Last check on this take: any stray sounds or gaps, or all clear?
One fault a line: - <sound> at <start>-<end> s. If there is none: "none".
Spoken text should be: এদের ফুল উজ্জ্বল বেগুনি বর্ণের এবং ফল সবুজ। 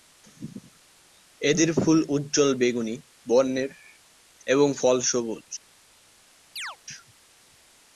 - chirp at 6.6-6.8 s